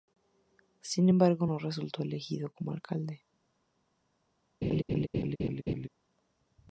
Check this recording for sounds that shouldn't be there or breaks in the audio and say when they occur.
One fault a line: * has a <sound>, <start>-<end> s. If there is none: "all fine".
* has a laugh, 4.6-5.9 s